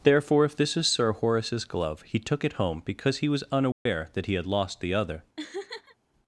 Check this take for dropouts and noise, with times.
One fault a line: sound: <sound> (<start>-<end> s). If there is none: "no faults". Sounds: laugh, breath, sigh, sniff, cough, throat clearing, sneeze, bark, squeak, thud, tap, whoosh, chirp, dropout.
sound: dropout (3.7-3.9 s)
sound: laugh (5.4-6.0 s)